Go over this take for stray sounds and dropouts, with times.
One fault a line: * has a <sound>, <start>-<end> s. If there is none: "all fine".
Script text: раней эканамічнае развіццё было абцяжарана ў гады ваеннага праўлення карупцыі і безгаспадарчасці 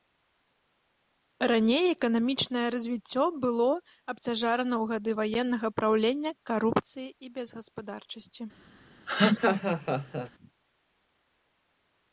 * has a laugh, 9.1-10.3 s